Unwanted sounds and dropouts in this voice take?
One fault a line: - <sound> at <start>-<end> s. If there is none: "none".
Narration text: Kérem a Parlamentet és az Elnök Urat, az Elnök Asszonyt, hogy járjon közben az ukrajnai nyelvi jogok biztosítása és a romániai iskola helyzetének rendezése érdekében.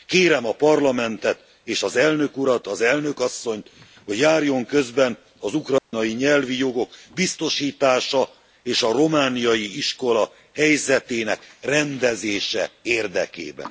- dropout at 5.8-5.9 s